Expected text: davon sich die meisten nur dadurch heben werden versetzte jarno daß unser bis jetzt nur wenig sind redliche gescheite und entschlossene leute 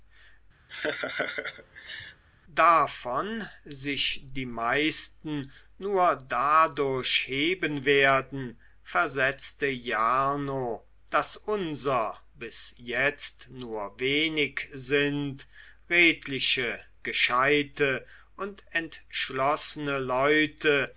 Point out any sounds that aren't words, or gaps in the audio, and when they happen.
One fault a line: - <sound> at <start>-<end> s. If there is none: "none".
- laugh at 0.7-2.2 s